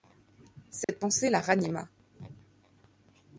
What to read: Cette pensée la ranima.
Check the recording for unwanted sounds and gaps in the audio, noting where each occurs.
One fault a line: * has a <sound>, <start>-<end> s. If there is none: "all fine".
* has a dropout, 0.8-0.9 s